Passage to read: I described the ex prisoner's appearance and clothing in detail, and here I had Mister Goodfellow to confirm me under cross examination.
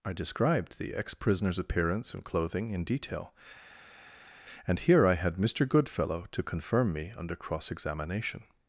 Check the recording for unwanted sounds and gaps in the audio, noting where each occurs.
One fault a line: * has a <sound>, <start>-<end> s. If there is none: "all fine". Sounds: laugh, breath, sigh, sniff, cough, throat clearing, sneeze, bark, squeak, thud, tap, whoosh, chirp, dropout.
all fine